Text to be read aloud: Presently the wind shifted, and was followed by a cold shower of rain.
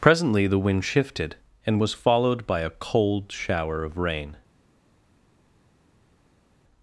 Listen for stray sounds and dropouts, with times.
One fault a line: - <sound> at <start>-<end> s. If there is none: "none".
none